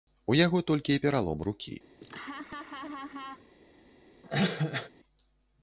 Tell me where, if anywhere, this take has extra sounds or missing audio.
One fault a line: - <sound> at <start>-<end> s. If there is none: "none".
- laugh at 2.0-3.5 s
- cough at 4.2-4.9 s